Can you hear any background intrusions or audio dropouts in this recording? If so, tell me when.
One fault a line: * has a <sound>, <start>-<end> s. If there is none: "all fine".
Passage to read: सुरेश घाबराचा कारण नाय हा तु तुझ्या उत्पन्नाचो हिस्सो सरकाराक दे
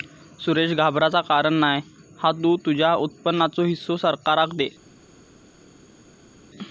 all fine